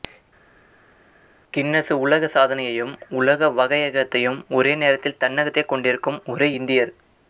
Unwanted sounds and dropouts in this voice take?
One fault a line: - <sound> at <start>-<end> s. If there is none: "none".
none